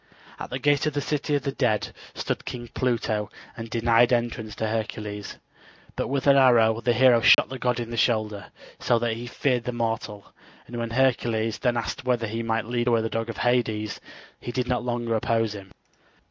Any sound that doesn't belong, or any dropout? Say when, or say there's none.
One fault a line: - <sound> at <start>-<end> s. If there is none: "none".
- dropout at 7.3-7.4 s